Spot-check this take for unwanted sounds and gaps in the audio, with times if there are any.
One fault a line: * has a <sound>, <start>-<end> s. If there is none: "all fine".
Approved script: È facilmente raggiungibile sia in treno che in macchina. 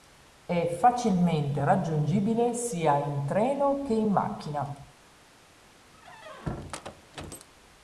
* has a squeak, 5.9-7.5 s